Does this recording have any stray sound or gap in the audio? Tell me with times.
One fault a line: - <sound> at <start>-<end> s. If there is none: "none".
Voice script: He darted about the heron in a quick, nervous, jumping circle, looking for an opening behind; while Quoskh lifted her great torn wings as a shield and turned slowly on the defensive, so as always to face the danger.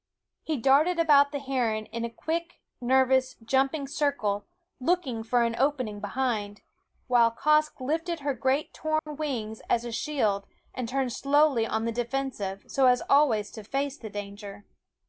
- dropout at 9.0-9.1 s